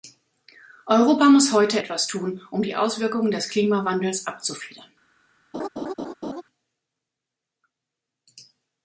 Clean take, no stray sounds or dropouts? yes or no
no